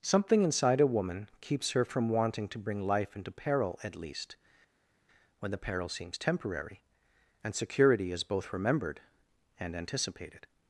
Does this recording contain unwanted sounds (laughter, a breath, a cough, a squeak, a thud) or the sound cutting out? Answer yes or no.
no